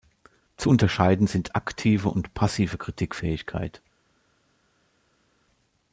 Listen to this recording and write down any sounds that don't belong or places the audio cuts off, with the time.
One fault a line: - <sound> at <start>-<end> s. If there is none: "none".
none